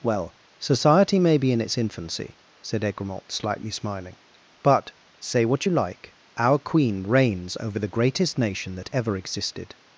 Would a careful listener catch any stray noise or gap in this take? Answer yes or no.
no